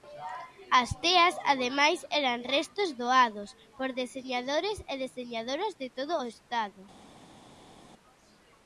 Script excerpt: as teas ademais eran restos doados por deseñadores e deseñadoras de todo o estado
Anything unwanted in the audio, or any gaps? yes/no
no